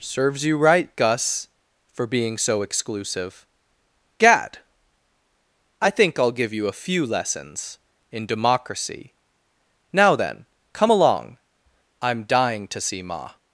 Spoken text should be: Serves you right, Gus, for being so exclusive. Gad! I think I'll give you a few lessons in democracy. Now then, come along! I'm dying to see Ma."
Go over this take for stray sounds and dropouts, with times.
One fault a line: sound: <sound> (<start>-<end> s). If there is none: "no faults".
no faults